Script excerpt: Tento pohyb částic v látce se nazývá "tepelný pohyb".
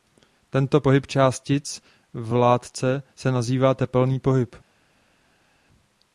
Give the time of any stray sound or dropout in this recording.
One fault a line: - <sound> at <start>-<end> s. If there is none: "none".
none